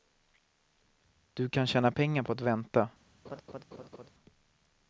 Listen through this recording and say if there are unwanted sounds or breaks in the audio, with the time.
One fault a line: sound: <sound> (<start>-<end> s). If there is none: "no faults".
sound: laugh (3.2-4.1 s)